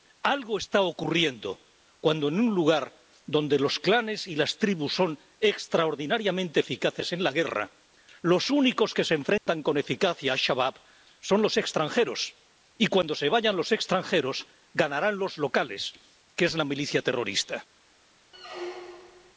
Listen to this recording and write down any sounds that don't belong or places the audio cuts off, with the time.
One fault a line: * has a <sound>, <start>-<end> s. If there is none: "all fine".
* has a dropout, 9.4-9.5 s
* has a squeak, 18.3-19.3 s